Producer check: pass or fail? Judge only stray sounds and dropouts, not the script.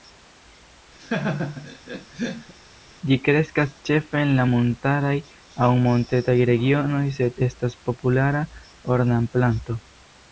fail